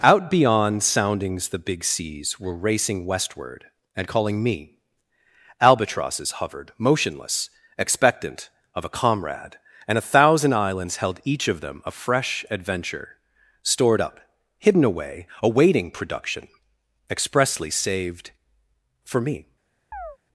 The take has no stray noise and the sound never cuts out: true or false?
false